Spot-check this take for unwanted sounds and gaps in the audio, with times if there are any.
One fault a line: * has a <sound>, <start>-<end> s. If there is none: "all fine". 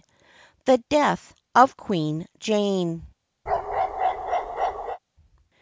* has a bark, 3.5-5.0 s